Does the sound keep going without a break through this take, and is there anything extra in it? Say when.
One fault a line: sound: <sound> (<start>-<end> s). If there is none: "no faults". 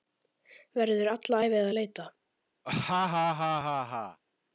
sound: laugh (2.6-4.2 s)